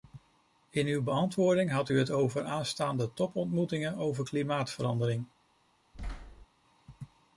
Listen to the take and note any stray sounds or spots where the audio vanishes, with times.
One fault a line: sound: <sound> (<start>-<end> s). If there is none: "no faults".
sound: thud (5.9-6.5 s)